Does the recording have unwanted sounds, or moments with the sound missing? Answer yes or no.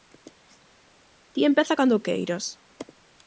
no